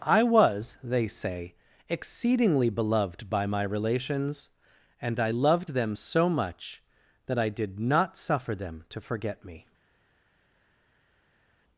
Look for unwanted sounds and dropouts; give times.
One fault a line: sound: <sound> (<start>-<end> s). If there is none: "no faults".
no faults